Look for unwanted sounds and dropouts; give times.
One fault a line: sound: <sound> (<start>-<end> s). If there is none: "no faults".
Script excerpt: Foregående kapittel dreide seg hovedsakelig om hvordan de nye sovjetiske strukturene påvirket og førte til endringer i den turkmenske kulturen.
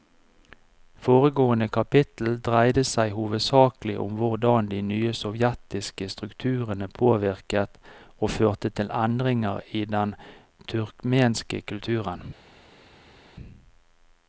no faults